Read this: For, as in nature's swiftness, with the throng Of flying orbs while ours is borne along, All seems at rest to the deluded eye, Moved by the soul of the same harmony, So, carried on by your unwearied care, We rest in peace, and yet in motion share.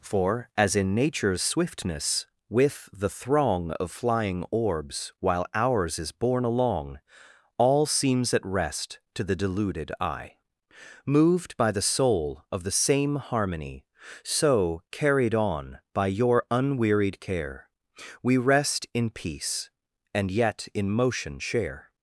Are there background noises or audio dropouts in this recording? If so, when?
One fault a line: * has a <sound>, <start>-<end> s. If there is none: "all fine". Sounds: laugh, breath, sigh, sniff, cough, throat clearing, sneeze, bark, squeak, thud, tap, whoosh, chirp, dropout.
all fine